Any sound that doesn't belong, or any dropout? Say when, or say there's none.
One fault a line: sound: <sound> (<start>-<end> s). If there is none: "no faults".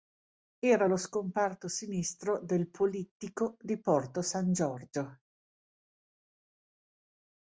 no faults